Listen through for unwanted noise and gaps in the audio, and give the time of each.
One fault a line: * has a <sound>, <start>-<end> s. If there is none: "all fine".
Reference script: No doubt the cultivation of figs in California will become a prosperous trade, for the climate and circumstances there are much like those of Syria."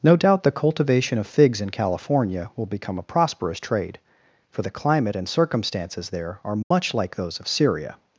* has a dropout, 6.6-6.7 s